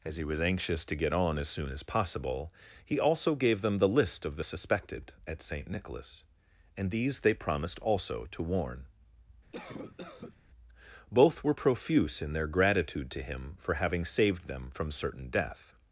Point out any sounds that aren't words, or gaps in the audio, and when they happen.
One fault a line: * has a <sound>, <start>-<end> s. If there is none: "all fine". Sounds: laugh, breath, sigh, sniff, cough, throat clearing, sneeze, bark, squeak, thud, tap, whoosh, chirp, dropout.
* has a cough, 9.5-10.4 s